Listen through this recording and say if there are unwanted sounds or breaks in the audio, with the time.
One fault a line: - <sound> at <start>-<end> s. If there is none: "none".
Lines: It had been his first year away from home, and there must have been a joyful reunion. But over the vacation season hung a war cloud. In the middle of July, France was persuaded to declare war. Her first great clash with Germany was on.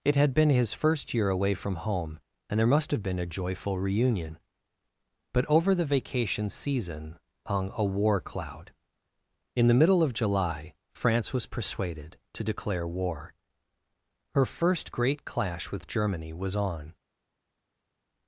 none